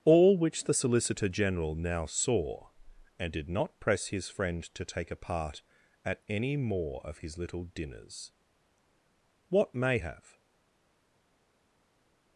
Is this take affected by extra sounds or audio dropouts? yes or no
no